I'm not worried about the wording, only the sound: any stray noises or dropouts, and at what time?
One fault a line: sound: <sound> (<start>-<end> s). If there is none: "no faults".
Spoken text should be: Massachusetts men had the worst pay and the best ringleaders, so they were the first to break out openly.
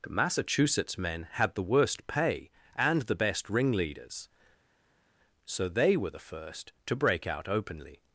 no faults